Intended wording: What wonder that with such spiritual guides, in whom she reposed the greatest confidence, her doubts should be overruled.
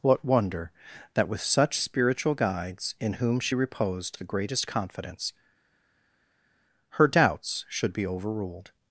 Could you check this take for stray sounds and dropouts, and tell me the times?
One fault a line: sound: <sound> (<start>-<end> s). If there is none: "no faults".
no faults